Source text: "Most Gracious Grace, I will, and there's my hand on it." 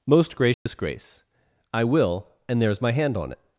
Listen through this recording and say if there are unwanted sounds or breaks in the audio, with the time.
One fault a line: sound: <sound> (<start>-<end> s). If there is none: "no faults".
sound: dropout (0.5-0.7 s)